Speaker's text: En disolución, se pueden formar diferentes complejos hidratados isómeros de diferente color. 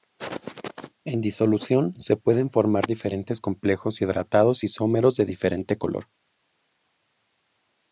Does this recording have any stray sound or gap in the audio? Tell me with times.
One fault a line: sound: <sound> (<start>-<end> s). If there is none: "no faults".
no faults